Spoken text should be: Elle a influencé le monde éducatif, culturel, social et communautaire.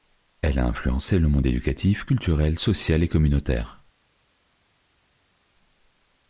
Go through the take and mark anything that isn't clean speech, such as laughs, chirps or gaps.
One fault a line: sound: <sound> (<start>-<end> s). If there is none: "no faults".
no faults